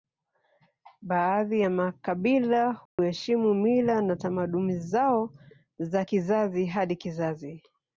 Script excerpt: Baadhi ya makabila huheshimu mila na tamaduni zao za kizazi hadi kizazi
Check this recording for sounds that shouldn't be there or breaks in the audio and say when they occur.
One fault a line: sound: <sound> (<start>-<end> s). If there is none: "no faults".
sound: dropout (2.9-3.0 s)